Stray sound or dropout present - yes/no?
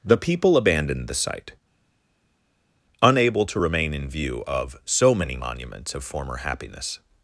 no